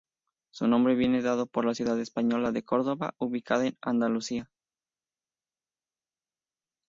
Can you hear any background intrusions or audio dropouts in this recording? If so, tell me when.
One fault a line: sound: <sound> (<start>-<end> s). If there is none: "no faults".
no faults